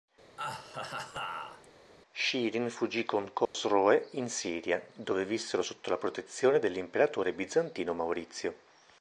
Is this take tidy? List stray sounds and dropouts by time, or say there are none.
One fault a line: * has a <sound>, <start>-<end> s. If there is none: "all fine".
* has a laugh, 0.4-1.7 s
* has a dropout, 3.5-3.5 s